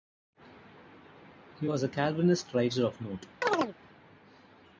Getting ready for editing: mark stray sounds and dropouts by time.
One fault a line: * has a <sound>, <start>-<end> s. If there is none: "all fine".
* has a chirp, 3.4-3.7 s